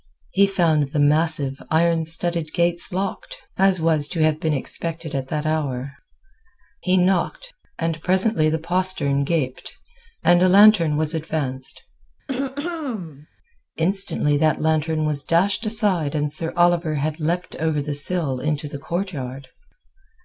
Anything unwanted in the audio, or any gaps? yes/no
yes